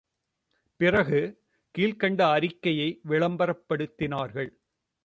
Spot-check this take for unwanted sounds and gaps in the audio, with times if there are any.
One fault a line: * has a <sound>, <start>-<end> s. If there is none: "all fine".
all fine